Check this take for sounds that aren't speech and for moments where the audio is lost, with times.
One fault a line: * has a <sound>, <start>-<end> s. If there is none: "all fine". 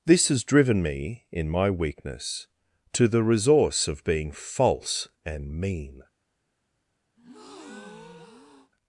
* has a breath, 7.2-8.7 s